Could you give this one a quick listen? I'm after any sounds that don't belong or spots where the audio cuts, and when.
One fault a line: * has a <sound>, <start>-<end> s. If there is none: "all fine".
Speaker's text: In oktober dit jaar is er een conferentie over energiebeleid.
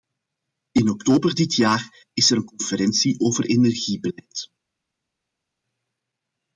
all fine